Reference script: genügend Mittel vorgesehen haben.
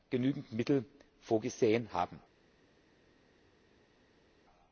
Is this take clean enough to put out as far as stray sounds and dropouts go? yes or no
yes